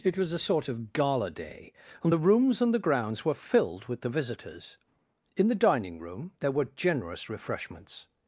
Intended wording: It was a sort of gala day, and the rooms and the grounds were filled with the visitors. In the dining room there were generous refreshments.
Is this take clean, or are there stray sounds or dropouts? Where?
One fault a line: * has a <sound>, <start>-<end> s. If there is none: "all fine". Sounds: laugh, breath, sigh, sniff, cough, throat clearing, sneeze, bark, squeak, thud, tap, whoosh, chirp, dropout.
all fine